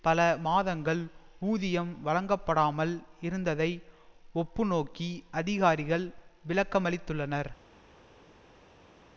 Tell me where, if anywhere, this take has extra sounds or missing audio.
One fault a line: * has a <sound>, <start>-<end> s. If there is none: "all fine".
all fine